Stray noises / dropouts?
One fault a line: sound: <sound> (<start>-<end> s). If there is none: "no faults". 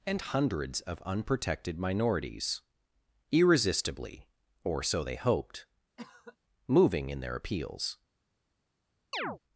sound: cough (6.0-6.4 s)
sound: chirp (9.1-9.4 s)